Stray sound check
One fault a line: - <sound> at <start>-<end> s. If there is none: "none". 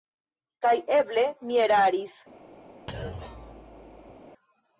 - thud at 2.9-4.2 s